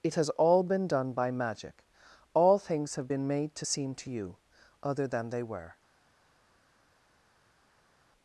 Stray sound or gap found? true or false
false